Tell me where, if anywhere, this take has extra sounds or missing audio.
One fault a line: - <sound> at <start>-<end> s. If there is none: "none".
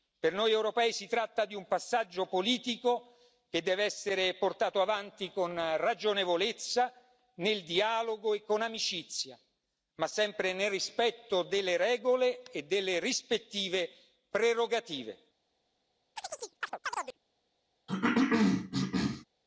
- chirp at 16.2-17.2 s
- cough at 17.9-19.3 s